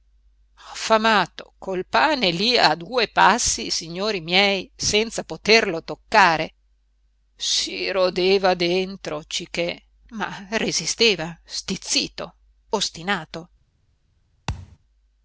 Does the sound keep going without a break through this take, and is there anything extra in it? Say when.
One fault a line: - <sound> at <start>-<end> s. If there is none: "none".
- thud at 14.5-14.8 s